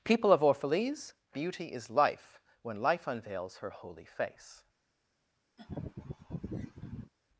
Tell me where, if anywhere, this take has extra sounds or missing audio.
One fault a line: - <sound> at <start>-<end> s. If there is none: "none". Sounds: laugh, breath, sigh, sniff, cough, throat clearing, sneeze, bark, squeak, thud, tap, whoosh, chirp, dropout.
- laugh at 5.6-7.1 s